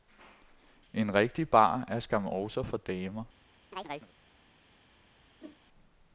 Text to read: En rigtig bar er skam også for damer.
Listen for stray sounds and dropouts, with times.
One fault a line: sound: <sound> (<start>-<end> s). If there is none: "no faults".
sound: chirp (3.7-4.1 s)
sound: whoosh (5.4-5.6 s)